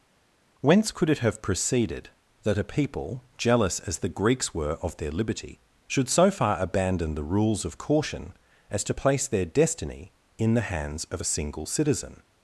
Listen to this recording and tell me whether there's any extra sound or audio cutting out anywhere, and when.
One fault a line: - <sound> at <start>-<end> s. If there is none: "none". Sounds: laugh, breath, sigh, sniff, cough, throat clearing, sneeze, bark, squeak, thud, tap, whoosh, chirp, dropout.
none